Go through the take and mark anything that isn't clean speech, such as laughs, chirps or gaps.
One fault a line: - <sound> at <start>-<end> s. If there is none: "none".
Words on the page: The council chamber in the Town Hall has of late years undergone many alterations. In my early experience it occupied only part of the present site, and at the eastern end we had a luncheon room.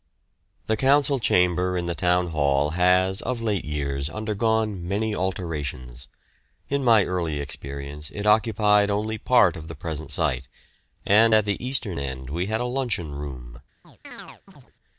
- chirp at 13.8-14.7 s